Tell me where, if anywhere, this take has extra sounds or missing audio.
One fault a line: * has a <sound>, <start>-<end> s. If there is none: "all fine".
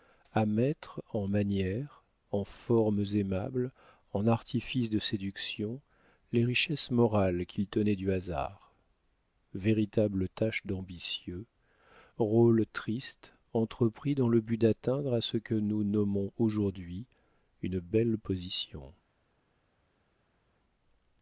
all fine